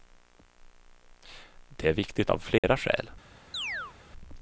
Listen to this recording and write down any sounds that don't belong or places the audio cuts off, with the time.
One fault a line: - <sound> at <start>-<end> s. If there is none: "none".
- dropout at 2.6-2.6 s
- chirp at 3.5-3.9 s